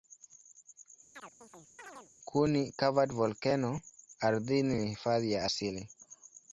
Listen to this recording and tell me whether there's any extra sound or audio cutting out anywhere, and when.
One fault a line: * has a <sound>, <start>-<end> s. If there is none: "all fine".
* has a chirp, 1.1-2.1 s